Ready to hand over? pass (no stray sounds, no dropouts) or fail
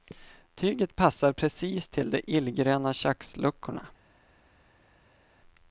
pass